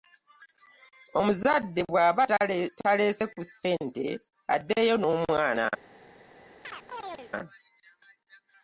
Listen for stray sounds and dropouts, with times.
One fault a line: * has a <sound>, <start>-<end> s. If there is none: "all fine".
* has a chirp, 6.6-7.3 s